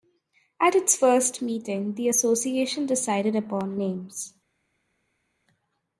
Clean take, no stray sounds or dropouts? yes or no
yes